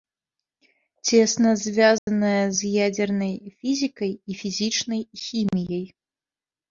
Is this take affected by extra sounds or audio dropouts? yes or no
yes